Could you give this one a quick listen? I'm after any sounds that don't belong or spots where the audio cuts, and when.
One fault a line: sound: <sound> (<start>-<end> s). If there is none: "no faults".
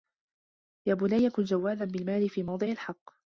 no faults